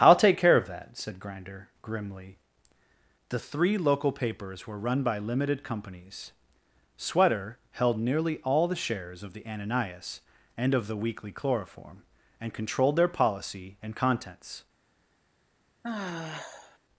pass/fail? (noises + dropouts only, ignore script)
fail